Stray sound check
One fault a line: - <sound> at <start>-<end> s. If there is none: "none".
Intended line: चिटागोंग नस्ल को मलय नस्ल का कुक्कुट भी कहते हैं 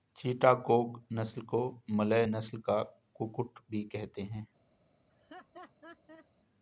- laugh at 5.1-6.3 s